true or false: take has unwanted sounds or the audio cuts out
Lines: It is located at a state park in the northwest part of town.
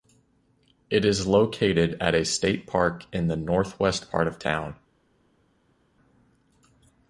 false